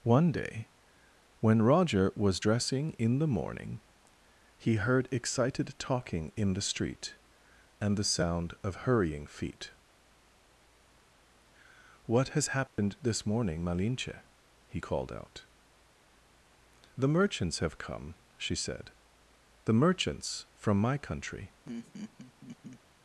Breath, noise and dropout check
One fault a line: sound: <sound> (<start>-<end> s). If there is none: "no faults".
sound: dropout (12.7-12.8 s)
sound: laugh (21.6-22.8 s)